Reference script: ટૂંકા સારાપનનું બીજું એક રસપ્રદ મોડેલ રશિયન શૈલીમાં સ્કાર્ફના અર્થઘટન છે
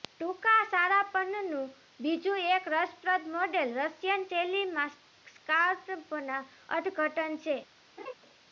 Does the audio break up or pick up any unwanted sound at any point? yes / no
yes